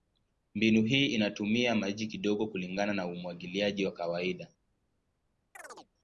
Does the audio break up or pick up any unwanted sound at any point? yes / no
yes